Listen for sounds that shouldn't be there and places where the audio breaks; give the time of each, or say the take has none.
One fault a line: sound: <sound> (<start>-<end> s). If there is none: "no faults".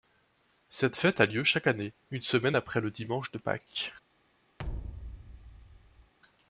sound: thud (4.6-6.1 s)